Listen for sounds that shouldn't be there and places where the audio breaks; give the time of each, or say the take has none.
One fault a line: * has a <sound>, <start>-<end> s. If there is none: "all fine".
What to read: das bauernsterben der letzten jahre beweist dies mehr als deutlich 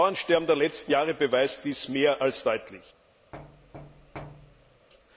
* has a thud, 3.3-4.9 s